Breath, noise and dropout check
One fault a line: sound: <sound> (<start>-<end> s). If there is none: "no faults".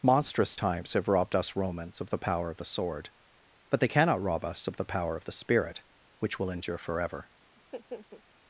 sound: laugh (7.6-8.2 s)